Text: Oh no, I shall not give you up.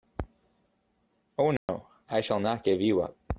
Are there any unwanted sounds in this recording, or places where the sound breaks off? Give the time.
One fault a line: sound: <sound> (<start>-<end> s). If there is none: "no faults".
sound: dropout (1.6-1.7 s)